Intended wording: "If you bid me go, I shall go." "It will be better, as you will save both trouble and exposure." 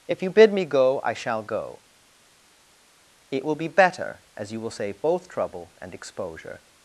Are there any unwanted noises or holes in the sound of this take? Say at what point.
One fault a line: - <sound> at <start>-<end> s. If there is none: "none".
none